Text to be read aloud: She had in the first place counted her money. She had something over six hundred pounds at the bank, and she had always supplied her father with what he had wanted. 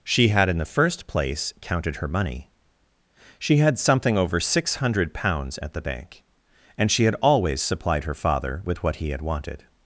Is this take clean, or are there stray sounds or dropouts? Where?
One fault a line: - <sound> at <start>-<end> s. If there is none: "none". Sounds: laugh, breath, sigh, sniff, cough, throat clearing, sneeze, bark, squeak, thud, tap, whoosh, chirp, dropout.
none